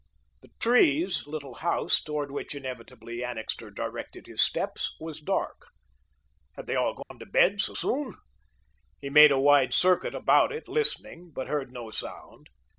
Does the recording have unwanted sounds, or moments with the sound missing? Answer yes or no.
yes